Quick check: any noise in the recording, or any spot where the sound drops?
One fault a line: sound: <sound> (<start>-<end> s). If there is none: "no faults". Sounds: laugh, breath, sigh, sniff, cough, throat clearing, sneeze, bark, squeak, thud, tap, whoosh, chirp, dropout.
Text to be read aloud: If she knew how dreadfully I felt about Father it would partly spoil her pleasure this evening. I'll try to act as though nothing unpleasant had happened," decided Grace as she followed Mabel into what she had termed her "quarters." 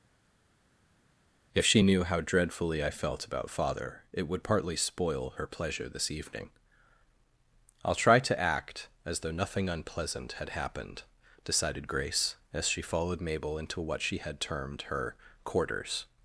no faults